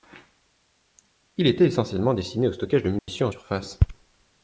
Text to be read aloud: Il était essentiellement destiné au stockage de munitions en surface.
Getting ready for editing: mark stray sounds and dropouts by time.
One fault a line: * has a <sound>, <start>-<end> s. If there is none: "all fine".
* has a dropout, 3.0-3.1 s